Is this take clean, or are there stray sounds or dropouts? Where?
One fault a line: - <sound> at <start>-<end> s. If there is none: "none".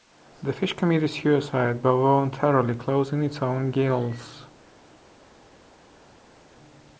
none